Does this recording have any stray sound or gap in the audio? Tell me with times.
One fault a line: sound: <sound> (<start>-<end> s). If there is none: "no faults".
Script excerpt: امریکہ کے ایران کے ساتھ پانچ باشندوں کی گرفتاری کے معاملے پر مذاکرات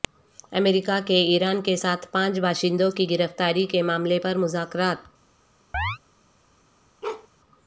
sound: chirp (5.7-6.0 s)
sound: bark (7.0-7.3 s)